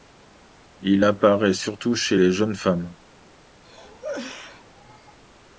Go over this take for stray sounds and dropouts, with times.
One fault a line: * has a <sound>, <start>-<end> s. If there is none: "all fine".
* has a cough, 3.6-5.2 s